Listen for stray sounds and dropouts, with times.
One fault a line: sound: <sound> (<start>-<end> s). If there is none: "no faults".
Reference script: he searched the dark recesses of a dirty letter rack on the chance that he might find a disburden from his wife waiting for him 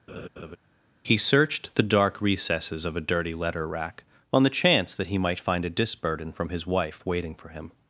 sound: laugh (0.1-0.6 s)